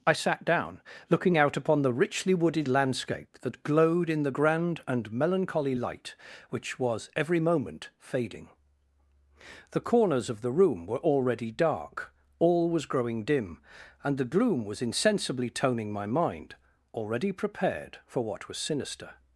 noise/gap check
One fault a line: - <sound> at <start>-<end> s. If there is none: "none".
none